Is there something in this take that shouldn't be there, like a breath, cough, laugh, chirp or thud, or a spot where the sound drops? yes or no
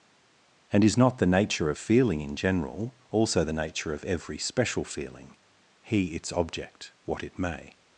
no